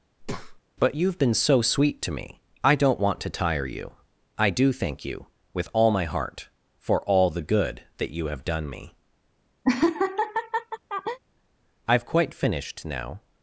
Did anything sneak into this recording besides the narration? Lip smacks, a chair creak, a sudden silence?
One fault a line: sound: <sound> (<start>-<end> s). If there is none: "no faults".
sound: breath (0.2-0.6 s)
sound: laugh (9.6-11.2 s)